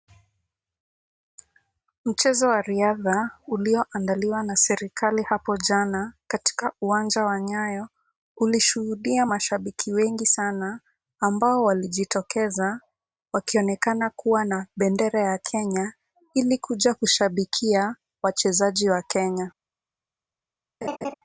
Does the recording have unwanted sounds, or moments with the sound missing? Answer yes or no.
yes